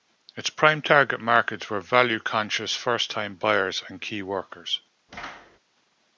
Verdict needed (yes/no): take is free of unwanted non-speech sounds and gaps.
no